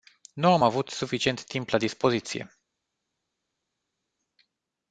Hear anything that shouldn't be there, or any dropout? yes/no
no